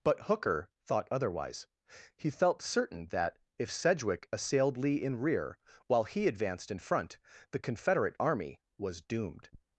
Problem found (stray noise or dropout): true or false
false